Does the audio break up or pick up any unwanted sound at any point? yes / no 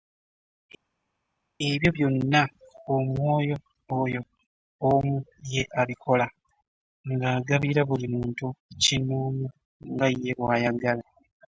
no